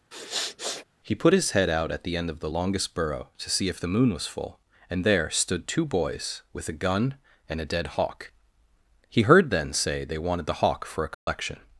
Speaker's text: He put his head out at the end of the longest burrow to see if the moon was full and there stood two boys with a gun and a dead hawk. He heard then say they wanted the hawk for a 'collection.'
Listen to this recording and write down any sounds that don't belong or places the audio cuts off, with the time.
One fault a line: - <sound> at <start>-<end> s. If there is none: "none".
- sniff at 0.1-0.8 s
- dropout at 11.1-11.3 s